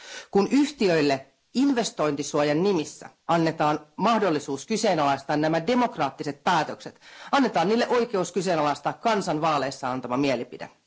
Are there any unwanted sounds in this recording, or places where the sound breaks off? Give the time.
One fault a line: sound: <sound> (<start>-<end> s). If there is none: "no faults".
no faults